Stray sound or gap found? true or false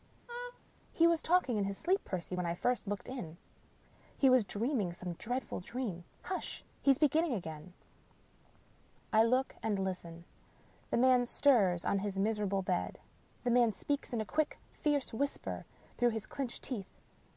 true